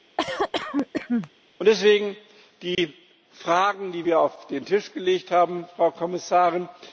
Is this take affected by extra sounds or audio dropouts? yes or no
yes